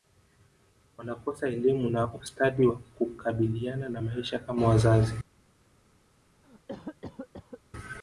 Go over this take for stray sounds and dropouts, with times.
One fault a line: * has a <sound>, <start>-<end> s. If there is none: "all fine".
* has a cough, 6.4-7.6 s